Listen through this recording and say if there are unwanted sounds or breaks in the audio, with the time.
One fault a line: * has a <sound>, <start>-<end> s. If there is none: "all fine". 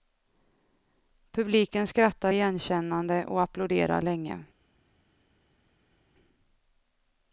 all fine